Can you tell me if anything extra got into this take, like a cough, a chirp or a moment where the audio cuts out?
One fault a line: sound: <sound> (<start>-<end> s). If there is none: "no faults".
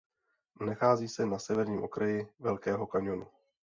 no faults